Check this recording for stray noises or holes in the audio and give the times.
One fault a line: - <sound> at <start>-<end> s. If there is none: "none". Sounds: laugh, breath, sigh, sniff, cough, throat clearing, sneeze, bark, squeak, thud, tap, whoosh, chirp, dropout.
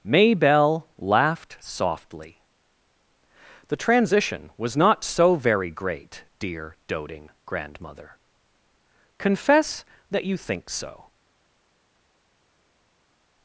none